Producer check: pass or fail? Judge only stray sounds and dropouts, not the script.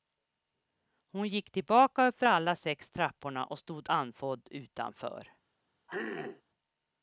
fail